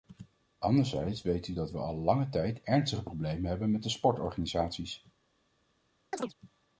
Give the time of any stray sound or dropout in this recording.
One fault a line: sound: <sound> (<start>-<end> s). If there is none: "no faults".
sound: chirp (6.1-6.3 s)